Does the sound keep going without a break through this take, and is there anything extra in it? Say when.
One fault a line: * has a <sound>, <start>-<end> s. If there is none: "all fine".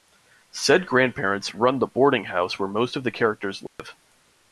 * has a dropout, 3.7-3.8 s